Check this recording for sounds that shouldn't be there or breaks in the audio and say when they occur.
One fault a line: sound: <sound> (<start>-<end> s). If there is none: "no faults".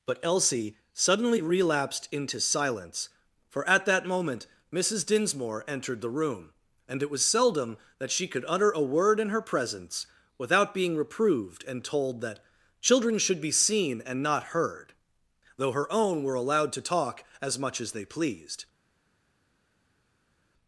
no faults